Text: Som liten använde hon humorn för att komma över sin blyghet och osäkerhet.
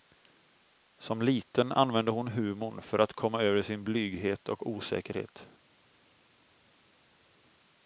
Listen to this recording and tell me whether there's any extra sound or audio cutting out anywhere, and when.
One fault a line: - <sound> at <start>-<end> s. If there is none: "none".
none